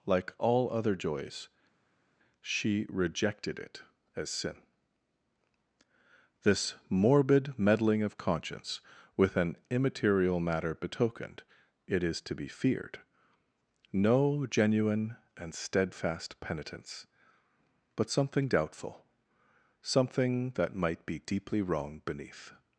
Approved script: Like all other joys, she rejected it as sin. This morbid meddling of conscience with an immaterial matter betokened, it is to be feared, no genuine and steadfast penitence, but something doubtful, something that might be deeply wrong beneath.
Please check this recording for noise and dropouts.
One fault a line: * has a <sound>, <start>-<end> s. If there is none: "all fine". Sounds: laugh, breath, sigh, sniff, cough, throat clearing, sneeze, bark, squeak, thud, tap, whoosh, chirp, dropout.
all fine